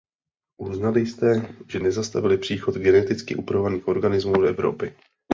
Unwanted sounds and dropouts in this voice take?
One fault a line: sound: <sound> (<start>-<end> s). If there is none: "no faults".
no faults